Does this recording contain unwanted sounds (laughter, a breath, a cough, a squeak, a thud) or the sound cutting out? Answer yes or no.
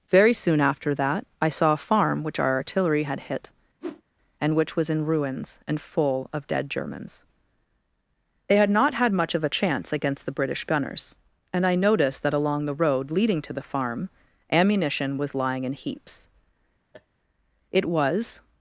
yes